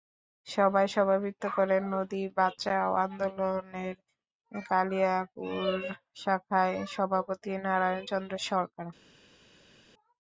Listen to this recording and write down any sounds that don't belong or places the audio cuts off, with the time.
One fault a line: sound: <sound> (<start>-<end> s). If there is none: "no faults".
no faults